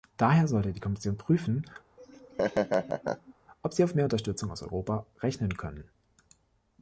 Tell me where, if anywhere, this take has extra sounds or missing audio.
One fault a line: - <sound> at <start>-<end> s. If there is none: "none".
- laugh at 2.0-3.3 s